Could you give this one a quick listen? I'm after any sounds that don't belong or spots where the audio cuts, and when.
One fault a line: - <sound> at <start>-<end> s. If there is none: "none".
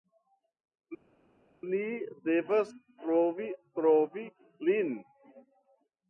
none